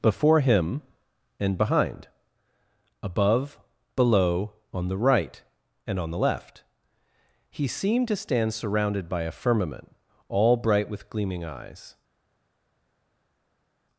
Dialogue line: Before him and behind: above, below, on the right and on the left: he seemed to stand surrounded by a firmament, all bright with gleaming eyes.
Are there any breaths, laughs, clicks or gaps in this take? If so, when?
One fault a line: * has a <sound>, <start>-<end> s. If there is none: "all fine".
all fine